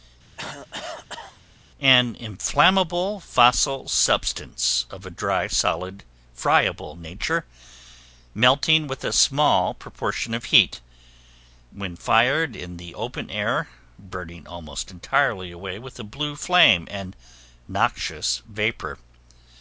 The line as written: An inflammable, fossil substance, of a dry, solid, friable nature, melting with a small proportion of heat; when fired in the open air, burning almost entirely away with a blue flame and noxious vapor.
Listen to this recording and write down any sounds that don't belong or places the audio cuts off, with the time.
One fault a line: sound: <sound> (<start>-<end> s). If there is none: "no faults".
sound: cough (0.4-1.4 s)